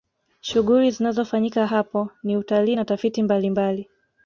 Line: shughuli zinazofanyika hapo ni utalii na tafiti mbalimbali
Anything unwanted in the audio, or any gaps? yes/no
no